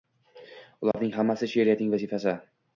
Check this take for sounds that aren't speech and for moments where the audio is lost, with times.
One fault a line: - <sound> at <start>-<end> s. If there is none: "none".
- dropout at 0.9-0.9 s